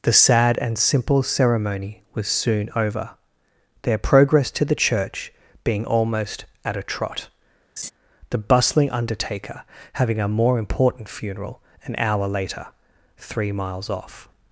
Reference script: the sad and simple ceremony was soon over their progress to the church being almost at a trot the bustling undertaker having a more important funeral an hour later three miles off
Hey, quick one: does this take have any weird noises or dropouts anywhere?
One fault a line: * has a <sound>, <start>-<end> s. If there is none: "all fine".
* has a laugh, 7.8-7.9 s